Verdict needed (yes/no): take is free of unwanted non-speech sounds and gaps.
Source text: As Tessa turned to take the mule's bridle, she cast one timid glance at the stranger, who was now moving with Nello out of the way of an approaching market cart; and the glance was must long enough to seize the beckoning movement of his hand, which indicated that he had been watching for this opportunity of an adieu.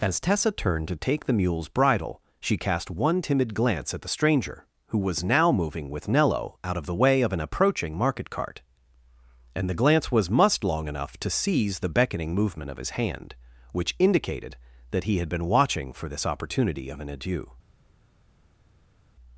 yes